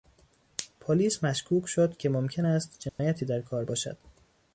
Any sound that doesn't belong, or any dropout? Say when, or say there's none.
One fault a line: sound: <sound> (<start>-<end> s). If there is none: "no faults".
sound: dropout (2.9-3.0 s)